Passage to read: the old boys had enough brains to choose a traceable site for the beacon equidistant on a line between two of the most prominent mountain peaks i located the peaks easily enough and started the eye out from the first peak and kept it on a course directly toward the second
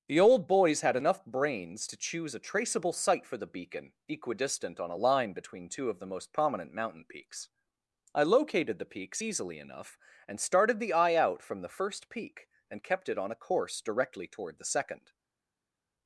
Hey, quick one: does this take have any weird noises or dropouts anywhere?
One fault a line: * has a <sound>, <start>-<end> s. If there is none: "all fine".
all fine